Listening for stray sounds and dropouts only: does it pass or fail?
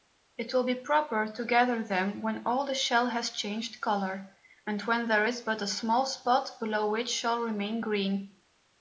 pass